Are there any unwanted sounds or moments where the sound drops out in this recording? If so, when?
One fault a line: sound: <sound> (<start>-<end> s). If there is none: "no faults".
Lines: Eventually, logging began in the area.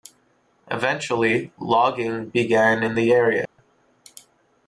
sound: dropout (3.5-3.6 s)